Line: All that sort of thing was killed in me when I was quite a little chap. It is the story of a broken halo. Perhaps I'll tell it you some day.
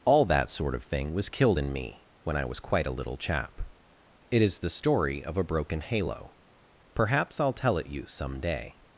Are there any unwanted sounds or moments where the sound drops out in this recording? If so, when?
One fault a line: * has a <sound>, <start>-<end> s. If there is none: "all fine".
all fine